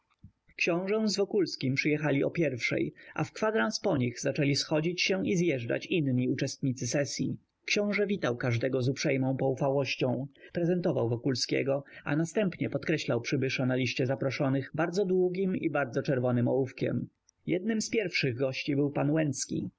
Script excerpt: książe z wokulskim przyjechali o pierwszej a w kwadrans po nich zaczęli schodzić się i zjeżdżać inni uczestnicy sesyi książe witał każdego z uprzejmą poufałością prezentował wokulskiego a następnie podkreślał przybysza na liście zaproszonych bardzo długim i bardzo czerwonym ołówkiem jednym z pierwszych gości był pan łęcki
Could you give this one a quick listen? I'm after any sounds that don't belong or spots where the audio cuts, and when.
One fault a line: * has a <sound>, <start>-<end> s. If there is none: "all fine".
all fine